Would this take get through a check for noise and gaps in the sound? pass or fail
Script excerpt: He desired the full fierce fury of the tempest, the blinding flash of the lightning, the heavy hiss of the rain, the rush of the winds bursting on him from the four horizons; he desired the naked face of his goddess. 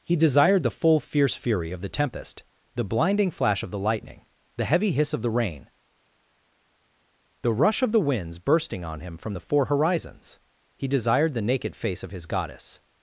pass